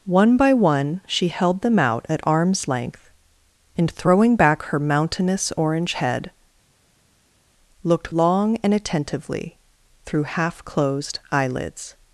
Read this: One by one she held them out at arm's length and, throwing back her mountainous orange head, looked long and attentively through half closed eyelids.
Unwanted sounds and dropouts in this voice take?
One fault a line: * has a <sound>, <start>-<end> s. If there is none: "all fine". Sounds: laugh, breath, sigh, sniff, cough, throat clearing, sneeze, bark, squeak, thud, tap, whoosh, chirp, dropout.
all fine